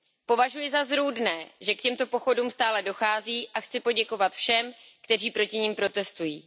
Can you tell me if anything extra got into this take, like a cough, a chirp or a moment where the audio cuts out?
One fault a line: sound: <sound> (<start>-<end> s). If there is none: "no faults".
no faults